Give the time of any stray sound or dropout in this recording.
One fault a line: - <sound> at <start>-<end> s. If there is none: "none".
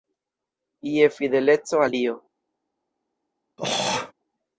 - throat clearing at 3.6-4.1 s